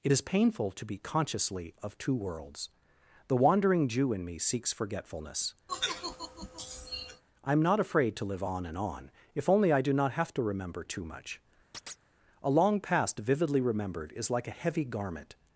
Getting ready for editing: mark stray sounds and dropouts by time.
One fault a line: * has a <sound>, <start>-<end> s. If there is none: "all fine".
* has a sigh, 5.7-7.2 s
* has a chirp, 11.7-12.1 s